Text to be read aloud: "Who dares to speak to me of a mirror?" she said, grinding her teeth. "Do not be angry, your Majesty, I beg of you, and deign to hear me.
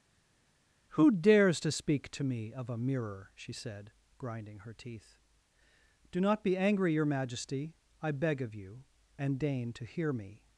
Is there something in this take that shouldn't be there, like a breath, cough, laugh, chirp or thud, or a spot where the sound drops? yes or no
no